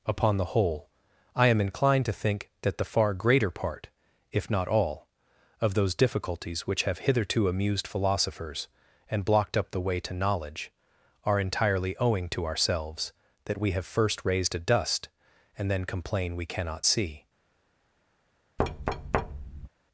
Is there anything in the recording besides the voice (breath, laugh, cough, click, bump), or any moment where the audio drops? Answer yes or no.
yes